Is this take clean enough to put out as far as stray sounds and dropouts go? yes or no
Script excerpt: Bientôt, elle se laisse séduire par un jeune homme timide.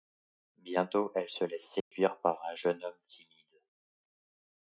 no